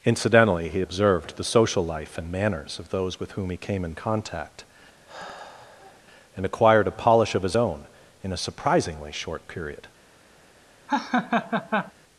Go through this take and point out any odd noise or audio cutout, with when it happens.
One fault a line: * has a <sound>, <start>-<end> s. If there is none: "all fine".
* has a sigh, 5.1-6.0 s
* has a laugh, 10.9-11.9 s